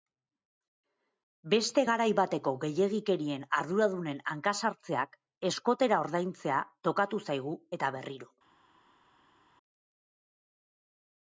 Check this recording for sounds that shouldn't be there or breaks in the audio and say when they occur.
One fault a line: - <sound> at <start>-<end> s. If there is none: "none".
none